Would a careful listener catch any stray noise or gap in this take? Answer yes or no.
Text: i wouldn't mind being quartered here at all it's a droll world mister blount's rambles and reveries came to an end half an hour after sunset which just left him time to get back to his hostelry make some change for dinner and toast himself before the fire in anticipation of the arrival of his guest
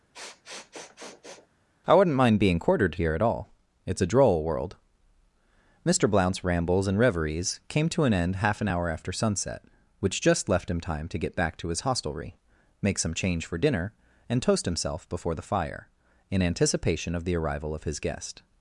yes